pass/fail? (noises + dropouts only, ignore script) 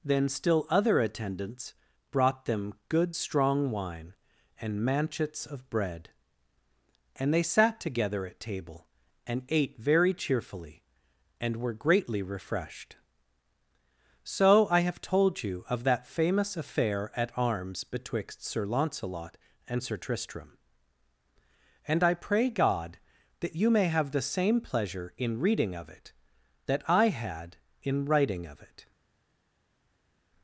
pass